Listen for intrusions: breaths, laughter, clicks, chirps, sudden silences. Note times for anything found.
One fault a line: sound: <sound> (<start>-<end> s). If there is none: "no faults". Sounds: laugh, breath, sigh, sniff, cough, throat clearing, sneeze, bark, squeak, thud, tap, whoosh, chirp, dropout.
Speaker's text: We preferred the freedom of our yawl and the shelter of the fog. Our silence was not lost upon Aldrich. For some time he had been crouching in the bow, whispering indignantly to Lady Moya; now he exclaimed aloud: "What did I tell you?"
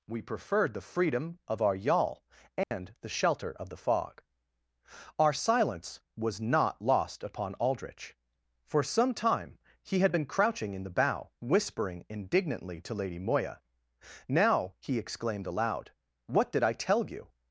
sound: dropout (2.6-2.7 s)